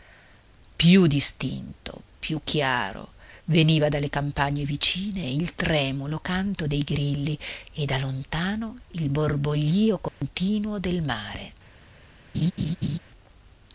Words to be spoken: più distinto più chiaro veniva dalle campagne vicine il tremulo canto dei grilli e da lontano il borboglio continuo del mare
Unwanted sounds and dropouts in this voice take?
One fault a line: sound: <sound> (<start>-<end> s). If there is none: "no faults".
sound: dropout (10.1-10.2 s)
sound: laugh (12.3-13.0 s)